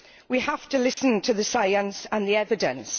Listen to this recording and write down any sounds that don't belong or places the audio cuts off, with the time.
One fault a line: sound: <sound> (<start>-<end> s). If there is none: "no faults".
sound: dropout (0.9-1.0 s)